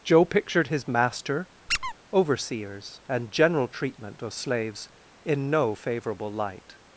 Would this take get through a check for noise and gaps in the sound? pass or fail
fail